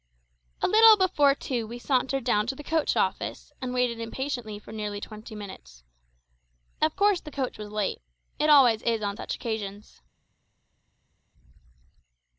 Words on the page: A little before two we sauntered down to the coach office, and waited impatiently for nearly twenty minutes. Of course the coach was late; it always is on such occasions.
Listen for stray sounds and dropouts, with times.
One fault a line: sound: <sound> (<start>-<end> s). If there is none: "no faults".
no faults